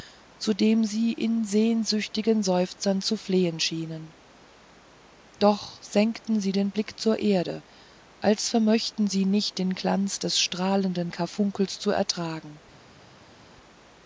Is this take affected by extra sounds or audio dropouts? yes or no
no